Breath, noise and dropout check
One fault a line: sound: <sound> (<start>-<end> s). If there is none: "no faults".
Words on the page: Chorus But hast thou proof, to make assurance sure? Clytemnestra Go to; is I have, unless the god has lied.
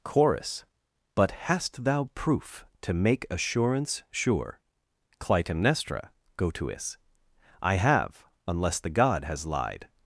no faults